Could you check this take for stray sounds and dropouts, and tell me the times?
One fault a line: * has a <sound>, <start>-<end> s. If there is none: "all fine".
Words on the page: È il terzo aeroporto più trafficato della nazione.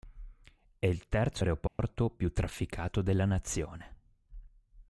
* has a dropout, 1.7-1.8 s